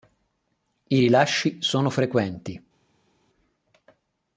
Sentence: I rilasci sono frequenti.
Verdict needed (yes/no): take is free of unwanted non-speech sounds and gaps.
yes